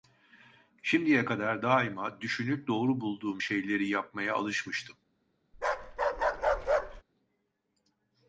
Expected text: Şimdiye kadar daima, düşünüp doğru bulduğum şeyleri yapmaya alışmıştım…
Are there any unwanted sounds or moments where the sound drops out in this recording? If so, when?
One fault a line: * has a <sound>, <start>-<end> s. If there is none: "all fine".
* has a bark, 5.5-7.0 s